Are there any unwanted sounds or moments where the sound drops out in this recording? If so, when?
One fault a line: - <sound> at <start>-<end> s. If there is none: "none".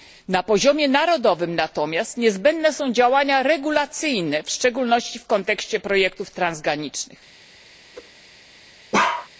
- whoosh at 7.9-8.1 s
- bark at 8.9-9.3 s